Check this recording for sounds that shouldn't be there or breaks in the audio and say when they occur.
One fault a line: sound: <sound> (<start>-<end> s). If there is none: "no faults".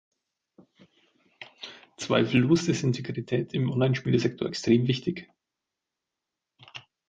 no faults